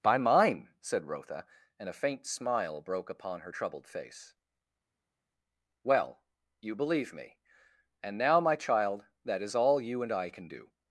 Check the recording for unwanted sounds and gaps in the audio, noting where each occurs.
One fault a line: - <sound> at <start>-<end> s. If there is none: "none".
none